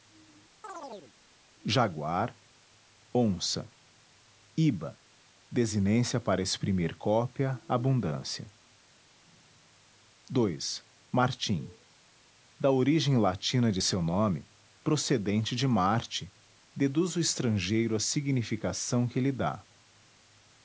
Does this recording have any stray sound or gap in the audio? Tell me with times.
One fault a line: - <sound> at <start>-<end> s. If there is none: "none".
- chirp at 0.6-1.1 s